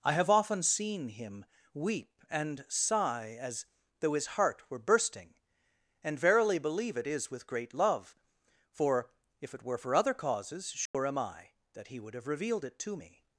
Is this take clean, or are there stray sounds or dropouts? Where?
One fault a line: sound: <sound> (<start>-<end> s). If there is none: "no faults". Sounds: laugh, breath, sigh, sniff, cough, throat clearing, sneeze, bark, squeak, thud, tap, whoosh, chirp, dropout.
sound: dropout (10.9-10.9 s)